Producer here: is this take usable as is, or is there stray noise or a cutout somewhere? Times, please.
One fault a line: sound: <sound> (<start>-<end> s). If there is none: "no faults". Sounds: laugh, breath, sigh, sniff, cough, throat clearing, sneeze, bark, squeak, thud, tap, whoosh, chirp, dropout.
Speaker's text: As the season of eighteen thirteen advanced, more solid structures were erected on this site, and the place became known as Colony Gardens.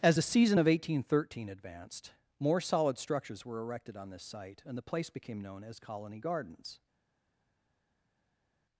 no faults